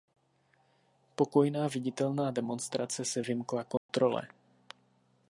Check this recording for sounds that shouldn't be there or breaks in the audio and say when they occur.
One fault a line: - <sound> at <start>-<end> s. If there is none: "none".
- dropout at 3.8-3.9 s